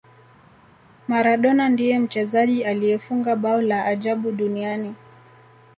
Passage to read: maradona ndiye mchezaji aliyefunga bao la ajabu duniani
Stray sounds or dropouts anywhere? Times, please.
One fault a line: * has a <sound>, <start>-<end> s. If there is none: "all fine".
all fine